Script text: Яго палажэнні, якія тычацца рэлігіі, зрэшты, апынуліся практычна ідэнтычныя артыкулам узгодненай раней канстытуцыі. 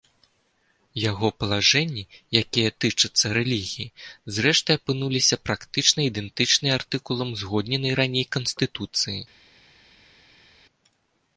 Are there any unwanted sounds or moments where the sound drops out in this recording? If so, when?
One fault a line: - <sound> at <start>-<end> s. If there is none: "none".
none